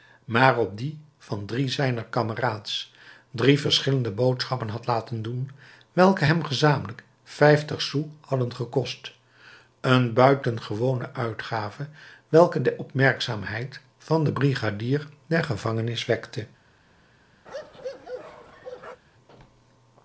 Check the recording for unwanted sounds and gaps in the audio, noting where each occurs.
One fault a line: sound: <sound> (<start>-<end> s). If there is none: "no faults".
sound: bark (17.5-19.0 s)